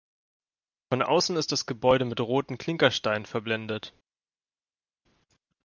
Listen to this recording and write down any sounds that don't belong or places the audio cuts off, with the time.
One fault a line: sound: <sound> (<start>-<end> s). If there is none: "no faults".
no faults